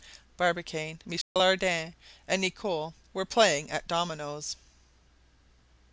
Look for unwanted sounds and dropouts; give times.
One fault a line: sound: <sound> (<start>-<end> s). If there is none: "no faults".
sound: dropout (1.2-1.4 s)